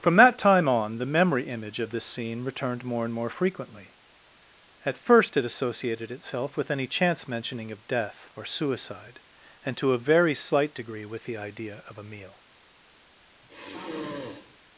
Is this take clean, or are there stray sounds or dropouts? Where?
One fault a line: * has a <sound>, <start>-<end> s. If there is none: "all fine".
* has a sigh, 13.4-14.6 s